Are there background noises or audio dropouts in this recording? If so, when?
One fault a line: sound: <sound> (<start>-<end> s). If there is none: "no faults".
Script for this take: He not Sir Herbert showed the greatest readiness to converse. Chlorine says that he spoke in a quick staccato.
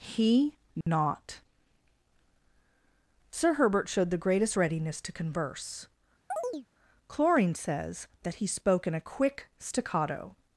sound: dropout (0.8-0.9 s)
sound: chirp (6.3-6.7 s)